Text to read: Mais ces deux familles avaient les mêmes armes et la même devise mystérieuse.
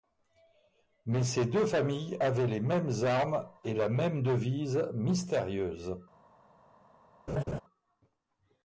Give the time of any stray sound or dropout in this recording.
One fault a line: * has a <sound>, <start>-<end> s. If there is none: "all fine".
* has a laugh, 7.3-7.6 s